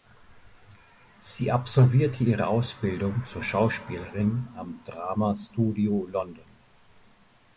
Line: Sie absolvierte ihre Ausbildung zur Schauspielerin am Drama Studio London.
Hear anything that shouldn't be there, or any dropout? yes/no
no